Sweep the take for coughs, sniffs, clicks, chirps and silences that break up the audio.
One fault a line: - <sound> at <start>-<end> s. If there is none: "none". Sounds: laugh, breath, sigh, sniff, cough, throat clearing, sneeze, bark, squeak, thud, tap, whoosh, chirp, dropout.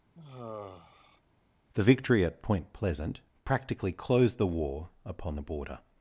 - sigh at 0.1-1.2 s